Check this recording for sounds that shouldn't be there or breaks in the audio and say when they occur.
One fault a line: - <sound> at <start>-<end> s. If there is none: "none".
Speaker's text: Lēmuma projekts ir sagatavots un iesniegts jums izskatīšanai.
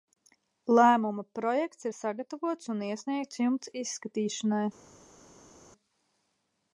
none